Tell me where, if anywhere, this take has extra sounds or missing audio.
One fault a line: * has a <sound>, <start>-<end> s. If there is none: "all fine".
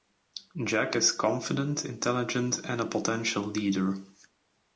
all fine